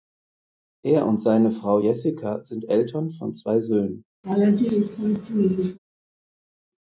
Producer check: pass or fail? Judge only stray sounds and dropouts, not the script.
fail